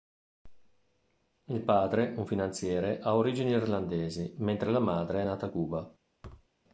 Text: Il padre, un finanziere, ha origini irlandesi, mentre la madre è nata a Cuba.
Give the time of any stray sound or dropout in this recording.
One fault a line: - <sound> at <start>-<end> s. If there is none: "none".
- thud at 6.2-6.5 s